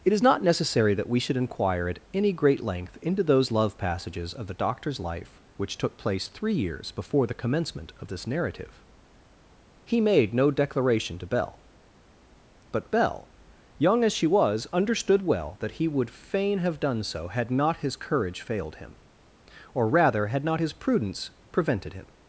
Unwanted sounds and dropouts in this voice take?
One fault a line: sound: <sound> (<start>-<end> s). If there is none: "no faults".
no faults